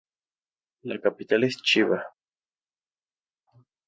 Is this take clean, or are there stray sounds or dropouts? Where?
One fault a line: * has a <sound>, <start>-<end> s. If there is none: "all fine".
all fine